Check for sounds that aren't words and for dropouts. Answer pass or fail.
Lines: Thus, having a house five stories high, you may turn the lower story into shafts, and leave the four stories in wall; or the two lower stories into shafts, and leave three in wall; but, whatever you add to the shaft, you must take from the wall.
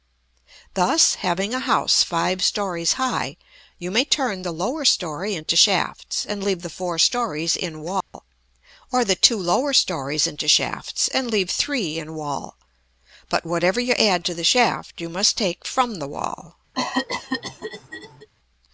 fail